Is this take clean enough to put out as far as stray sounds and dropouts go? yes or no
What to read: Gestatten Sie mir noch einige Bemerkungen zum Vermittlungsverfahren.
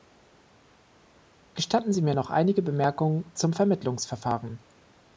yes